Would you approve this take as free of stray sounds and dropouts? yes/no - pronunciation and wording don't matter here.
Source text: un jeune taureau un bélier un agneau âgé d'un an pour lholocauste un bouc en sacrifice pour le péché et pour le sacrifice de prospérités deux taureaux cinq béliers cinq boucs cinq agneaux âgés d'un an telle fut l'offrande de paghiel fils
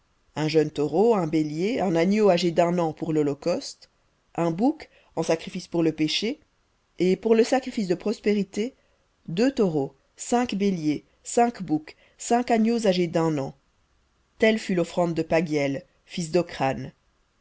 yes